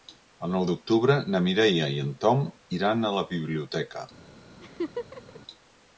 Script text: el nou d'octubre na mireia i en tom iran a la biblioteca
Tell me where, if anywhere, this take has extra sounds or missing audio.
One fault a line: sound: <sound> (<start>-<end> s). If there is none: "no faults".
sound: laugh (4.6-5.4 s)